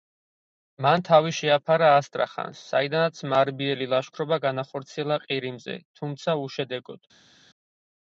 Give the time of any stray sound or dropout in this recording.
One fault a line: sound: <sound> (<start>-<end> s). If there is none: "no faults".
no faults